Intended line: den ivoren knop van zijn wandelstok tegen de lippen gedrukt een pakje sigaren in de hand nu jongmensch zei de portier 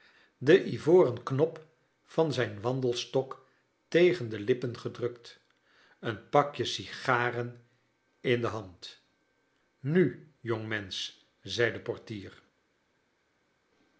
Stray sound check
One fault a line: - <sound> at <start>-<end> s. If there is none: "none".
none